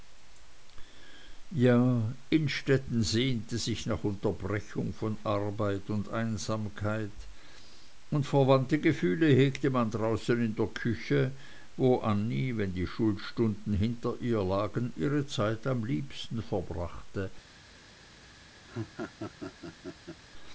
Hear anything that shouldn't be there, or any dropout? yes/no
yes